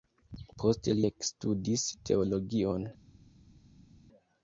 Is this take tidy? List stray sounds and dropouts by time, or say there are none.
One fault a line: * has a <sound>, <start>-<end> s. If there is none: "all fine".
all fine